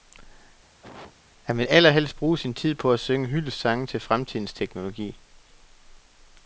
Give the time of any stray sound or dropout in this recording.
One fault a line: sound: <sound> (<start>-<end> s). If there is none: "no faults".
sound: cough (0.8-1.1 s)